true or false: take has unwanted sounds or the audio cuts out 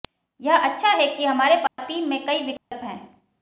true